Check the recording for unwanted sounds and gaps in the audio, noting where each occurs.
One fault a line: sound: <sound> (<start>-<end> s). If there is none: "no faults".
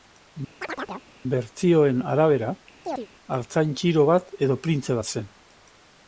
sound: chirp (0.6-1.1 s)
sound: chirp (2.8-3.1 s)